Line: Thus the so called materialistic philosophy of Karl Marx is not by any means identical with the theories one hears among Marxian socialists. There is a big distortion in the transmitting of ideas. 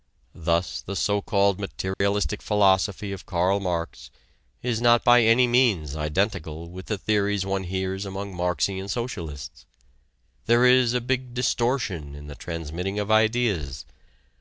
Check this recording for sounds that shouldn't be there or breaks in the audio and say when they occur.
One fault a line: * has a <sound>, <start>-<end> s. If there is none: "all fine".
* has a dropout, 1.9-2.0 s